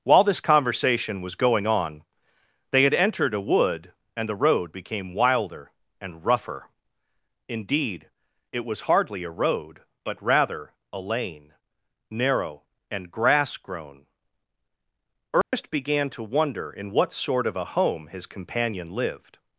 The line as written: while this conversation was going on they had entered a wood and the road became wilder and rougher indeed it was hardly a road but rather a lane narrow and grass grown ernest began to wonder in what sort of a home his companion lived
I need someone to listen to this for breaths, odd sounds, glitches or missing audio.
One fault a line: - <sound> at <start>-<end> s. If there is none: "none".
- dropout at 15.4-15.5 s